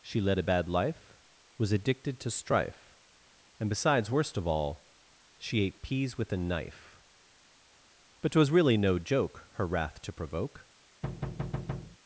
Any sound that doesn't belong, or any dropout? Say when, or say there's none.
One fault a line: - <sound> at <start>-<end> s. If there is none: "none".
- thud at 11.0-12.0 s